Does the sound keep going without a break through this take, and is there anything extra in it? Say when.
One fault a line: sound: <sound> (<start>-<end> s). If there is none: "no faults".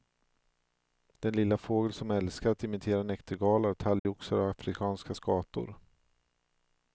sound: dropout (4.0-4.1 s)